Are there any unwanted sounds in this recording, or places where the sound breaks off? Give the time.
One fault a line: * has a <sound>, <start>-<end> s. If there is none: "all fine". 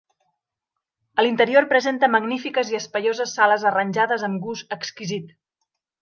all fine